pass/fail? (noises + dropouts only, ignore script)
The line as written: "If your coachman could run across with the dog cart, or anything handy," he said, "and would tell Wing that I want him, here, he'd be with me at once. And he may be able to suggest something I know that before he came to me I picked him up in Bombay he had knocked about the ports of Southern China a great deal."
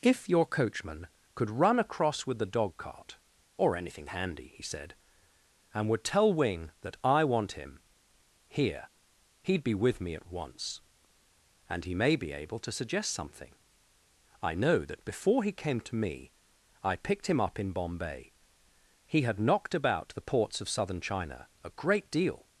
pass